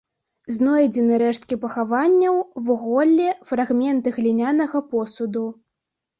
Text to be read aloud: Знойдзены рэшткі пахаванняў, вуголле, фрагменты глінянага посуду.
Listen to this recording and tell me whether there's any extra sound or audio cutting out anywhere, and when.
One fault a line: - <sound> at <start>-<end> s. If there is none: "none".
none